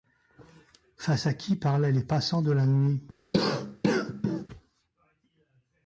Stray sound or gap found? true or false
true